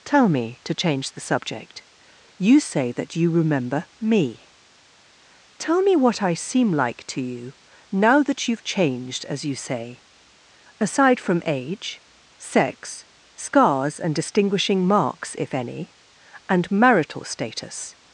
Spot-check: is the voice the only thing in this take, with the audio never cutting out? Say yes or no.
yes